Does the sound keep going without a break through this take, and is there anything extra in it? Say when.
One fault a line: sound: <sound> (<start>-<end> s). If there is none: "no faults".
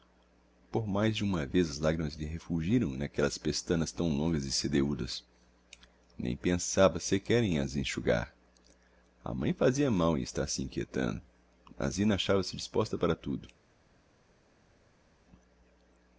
no faults